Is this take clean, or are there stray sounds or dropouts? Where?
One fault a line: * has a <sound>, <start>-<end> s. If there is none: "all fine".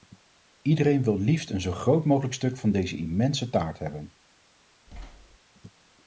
* has a thud, 4.9-5.4 s